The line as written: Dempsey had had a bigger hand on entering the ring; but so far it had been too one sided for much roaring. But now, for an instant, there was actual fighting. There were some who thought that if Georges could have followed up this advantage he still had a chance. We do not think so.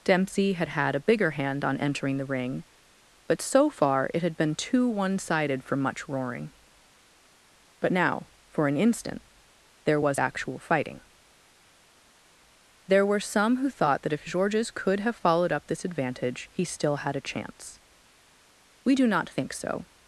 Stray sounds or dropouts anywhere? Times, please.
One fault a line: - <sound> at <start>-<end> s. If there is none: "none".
none